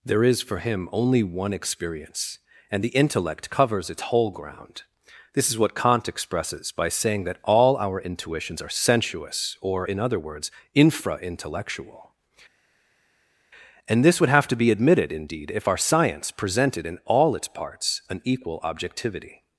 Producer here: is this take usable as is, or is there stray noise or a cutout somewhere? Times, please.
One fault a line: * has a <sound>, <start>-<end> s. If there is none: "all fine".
all fine